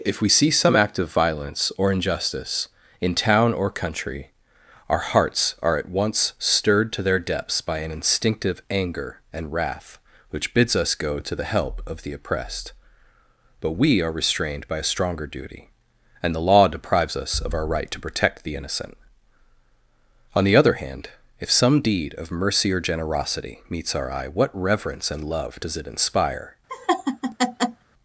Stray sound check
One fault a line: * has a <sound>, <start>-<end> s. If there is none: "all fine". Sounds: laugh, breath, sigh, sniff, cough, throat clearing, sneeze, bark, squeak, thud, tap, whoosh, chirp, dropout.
* has a laugh, 26.7-27.8 s